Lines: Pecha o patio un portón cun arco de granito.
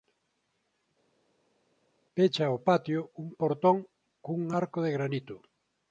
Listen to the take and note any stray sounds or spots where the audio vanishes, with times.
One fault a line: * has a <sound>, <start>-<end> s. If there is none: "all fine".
all fine